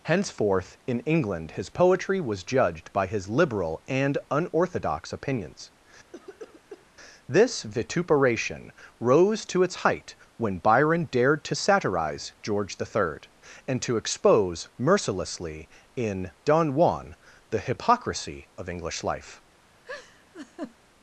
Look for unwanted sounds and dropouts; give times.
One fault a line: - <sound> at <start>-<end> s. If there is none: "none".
- cough at 6.1-6.9 s
- laugh at 19.8-20.8 s